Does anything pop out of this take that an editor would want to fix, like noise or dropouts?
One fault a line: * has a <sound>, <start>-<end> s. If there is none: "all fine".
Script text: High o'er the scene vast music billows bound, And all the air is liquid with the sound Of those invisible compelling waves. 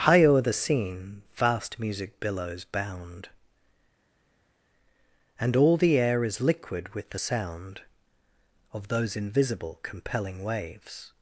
all fine